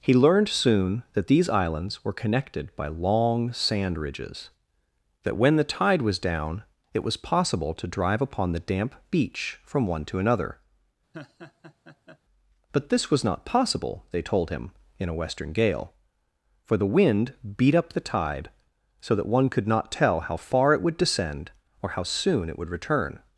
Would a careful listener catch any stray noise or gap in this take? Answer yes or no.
yes